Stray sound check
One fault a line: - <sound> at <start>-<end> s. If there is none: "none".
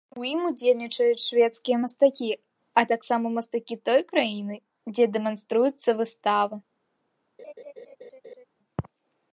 - laugh at 7.4-8.4 s